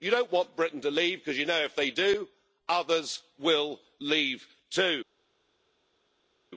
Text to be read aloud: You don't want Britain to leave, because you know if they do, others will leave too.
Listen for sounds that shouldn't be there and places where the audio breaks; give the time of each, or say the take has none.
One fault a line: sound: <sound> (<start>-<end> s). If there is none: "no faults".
no faults